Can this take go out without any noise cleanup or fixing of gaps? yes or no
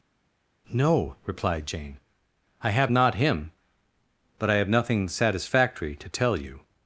yes